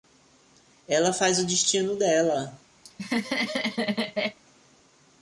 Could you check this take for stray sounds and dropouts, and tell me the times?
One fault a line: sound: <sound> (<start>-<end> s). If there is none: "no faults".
sound: laugh (2.8-4.4 s)